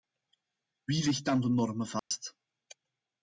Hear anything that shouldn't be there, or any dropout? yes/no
yes